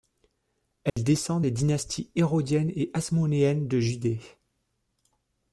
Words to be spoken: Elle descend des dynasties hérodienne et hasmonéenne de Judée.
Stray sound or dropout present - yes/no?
yes